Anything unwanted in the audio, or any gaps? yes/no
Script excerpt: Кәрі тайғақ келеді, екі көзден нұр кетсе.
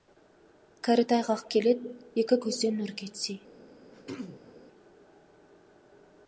yes